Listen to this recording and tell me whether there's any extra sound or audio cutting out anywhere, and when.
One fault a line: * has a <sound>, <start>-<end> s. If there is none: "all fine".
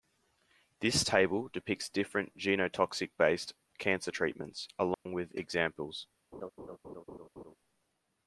* has a dropout, 4.9-5.1 s
* has a laugh, 6.3-7.6 s